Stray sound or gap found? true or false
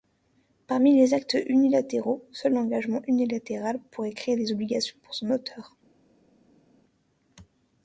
false